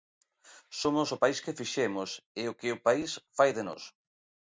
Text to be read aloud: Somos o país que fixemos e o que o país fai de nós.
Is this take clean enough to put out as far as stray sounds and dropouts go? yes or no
yes